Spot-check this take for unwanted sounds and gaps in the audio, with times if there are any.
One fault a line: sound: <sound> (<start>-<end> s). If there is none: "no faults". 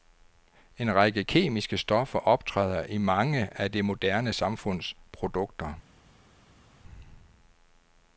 no faults